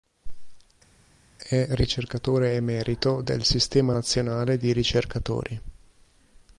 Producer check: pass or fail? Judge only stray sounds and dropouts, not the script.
pass